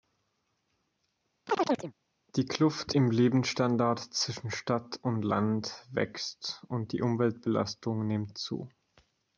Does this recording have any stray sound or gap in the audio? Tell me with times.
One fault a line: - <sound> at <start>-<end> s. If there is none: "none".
- chirp at 1.5-1.9 s